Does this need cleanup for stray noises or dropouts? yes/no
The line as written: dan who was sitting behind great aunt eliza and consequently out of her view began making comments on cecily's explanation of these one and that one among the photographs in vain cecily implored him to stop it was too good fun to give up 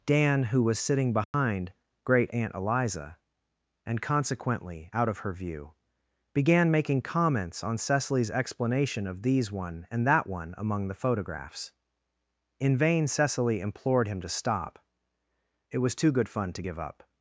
yes